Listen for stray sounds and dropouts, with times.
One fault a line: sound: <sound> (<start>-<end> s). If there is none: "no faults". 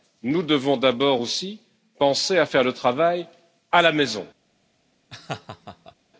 sound: laugh (5.1-5.9 s)